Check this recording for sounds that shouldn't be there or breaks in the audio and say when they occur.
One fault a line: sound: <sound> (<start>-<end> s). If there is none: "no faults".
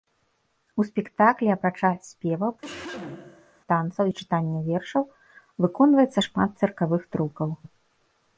sound: cough (2.6-3.6 s)